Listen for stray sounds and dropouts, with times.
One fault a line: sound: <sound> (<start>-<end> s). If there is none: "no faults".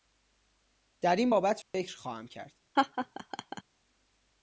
sound: dropout (1.6-1.7 s)
sound: laugh (2.8-3.6 s)